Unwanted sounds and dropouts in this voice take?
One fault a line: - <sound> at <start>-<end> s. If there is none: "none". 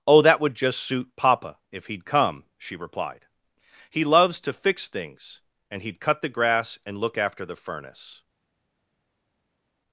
none